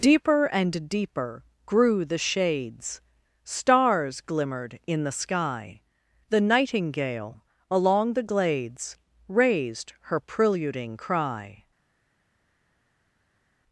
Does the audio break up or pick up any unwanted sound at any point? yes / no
no